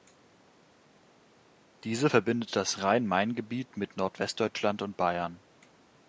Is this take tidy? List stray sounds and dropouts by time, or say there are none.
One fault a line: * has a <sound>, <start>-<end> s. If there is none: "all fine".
all fine